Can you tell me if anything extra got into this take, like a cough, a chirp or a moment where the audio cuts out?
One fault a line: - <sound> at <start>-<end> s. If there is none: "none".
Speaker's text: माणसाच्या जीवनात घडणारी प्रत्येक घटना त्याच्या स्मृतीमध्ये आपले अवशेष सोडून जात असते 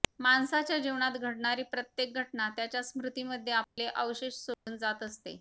- dropout at 3.6-3.8 s
- dropout at 4.5-4.7 s